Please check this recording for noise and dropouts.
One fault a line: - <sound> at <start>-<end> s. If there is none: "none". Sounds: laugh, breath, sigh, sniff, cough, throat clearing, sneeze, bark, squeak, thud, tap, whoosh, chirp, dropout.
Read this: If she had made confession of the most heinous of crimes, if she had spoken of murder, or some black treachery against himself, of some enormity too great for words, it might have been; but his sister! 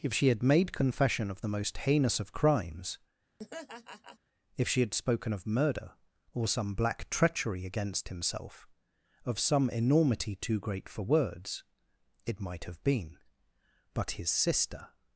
- laugh at 3.4-4.2 s